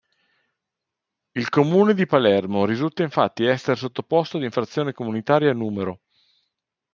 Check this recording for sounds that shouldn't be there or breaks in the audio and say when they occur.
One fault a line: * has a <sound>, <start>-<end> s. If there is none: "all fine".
all fine